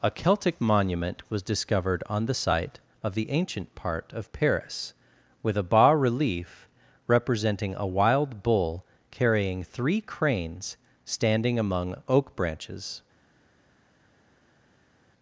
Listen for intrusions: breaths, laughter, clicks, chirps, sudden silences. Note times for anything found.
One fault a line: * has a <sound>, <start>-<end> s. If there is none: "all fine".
all fine